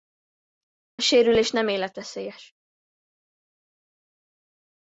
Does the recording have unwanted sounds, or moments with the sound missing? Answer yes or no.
no